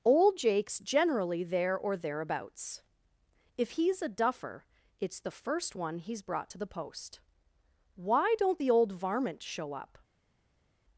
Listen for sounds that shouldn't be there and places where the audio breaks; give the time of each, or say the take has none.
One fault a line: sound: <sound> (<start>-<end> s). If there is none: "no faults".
no faults